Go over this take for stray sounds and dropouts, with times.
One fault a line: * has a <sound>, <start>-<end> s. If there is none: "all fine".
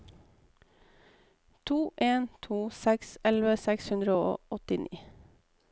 all fine